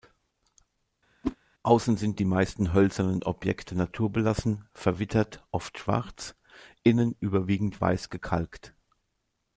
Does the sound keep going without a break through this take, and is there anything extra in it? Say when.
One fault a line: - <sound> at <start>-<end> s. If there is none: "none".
- whoosh at 1.2-1.4 s